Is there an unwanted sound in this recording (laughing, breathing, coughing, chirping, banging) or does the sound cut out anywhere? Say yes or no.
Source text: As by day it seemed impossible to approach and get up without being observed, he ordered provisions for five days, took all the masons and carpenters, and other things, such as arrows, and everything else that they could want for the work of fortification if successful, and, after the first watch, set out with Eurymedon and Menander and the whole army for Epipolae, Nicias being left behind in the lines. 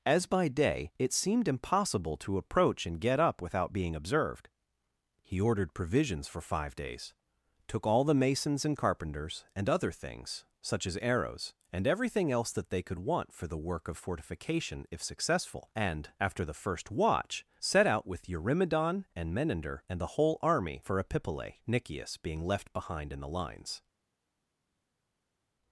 no